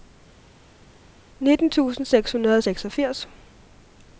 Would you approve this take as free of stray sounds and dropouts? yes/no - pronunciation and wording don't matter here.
yes